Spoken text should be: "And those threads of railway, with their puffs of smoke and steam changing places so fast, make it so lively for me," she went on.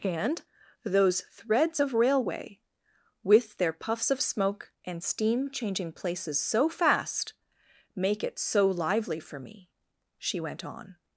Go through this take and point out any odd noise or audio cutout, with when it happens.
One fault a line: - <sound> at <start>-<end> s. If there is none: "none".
none